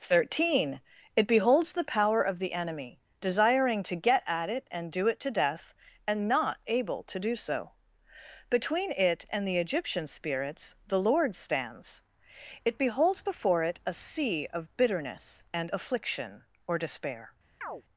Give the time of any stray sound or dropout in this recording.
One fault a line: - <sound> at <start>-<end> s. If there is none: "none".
- chirp at 17.6-17.8 s